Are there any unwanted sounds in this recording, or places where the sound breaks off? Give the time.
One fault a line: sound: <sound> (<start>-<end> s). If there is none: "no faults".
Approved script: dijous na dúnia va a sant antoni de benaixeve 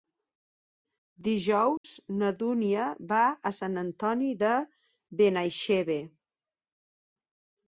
sound: dropout (1.8-1.8 s)